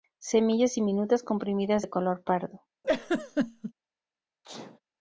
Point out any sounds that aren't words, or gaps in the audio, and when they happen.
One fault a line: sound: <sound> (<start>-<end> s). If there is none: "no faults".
sound: laugh (2.8-3.7 s)
sound: sneeze (4.4-4.8 s)